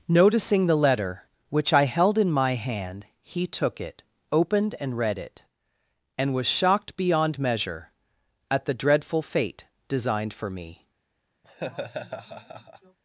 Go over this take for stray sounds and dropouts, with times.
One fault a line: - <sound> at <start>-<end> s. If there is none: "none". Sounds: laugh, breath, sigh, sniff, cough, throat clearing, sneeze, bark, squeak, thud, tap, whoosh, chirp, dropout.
- laugh at 11.4-13.0 s